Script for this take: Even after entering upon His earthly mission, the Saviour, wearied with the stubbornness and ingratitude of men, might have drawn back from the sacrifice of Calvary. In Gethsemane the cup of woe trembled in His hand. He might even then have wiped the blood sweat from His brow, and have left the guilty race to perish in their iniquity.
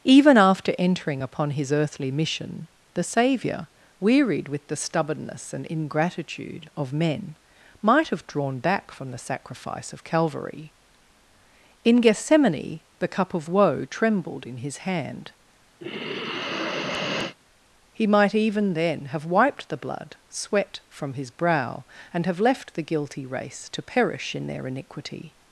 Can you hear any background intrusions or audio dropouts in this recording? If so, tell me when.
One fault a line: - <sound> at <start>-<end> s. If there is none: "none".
- sigh at 15.8-17.4 s